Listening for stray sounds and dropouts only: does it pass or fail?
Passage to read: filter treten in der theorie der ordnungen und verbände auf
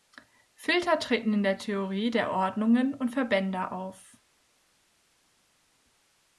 pass